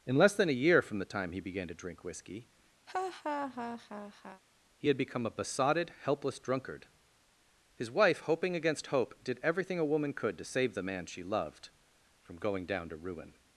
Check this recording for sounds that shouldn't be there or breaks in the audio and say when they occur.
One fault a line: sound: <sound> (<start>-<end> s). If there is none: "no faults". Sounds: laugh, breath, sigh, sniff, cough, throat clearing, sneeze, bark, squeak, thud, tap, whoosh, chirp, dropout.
sound: laugh (2.9-4.4 s)